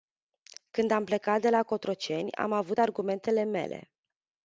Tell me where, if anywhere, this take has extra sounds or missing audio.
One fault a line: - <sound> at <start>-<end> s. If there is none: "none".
none